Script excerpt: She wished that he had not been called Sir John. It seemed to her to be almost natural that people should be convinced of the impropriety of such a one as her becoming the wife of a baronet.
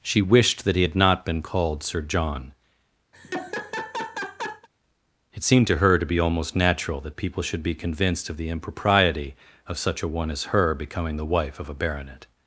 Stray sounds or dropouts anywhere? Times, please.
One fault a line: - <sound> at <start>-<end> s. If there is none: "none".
- laugh at 3.1-4.7 s